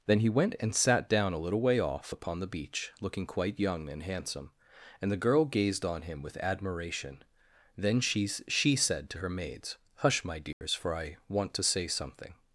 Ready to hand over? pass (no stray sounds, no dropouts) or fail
fail